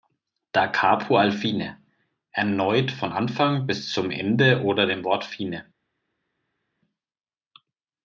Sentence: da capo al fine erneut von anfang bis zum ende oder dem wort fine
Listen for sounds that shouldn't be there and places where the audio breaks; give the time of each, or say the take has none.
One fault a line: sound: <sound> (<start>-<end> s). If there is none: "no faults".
no faults